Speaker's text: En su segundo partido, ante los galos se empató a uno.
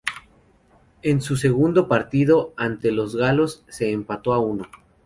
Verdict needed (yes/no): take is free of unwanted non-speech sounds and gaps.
yes